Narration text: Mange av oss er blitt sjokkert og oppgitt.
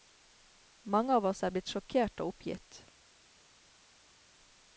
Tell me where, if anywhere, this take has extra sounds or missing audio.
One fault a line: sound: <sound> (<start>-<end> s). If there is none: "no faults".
no faults